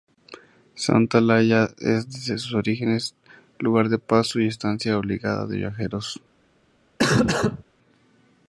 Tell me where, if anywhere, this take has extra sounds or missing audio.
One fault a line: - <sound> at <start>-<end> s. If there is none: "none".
- cough at 7.0-7.6 s